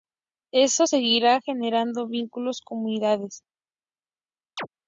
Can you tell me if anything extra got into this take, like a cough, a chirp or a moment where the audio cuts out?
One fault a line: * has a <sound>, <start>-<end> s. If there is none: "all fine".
* has a chirp, 4.6-4.7 s